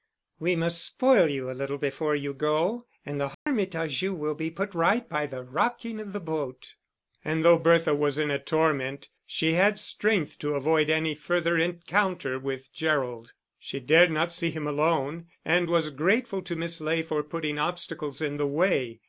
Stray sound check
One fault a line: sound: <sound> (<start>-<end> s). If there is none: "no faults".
sound: dropout (3.3-3.5 s)